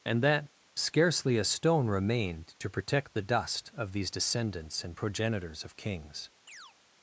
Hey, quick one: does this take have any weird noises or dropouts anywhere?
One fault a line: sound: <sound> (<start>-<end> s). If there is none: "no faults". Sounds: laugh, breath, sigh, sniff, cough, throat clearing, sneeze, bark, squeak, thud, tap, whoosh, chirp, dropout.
sound: chirp (6.5-6.8 s)